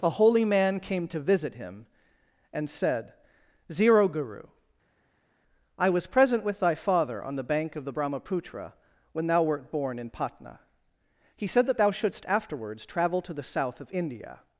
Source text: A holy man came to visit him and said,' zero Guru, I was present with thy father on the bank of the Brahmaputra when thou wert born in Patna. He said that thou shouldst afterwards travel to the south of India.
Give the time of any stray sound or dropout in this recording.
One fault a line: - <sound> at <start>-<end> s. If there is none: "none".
none